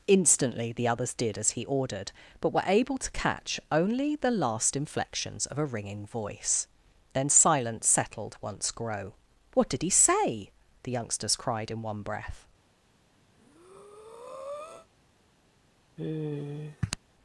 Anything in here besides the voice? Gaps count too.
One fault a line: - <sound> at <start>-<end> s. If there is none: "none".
- breath at 13.3-14.9 s
- sigh at 16.0-17.0 s